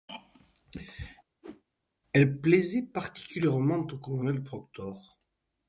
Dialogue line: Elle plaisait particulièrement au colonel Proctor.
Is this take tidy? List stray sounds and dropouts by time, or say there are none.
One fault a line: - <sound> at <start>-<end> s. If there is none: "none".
- whoosh at 1.4-1.6 s